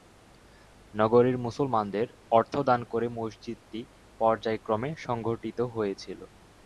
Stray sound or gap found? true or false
false